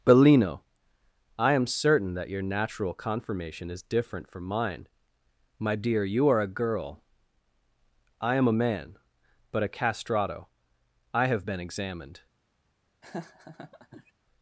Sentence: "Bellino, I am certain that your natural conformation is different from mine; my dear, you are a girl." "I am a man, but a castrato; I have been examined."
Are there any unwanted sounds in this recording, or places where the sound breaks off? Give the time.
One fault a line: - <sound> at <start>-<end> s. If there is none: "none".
- laugh at 13.0-14.1 s